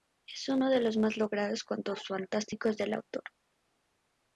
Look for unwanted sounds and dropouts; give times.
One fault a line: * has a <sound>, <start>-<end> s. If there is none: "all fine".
all fine